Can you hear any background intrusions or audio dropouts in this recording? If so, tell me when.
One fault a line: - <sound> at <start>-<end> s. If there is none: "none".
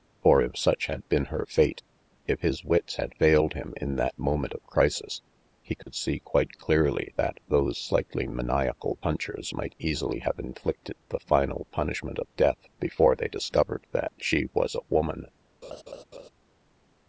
- dropout at 5.8-5.9 s
- laugh at 15.6-16.3 s